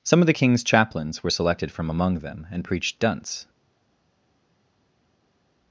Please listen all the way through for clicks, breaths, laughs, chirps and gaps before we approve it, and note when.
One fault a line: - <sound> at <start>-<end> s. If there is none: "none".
none